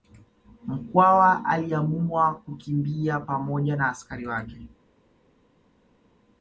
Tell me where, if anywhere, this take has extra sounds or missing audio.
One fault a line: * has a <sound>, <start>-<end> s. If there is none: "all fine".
all fine